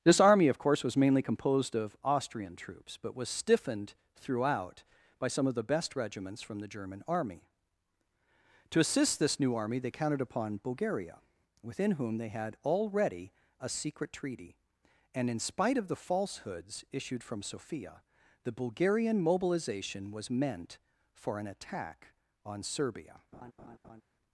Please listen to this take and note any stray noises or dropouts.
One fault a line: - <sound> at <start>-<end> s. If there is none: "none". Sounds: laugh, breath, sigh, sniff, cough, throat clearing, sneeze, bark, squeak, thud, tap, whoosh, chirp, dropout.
- laugh at 23.3-24.0 s